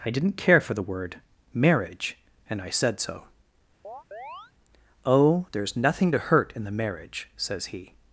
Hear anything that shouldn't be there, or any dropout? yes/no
yes